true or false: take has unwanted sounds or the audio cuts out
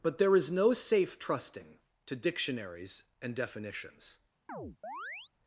true